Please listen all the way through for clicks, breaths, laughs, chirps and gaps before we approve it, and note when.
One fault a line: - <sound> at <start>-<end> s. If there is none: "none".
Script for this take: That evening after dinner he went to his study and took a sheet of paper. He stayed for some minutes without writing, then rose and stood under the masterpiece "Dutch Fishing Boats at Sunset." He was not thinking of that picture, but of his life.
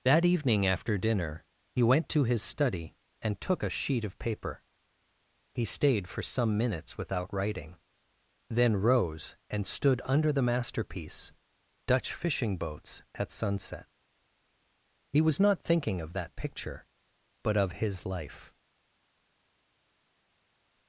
none